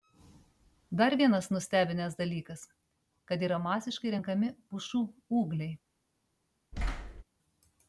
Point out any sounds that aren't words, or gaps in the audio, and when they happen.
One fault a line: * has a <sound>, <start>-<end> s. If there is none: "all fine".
* has a thud, 6.7-7.2 s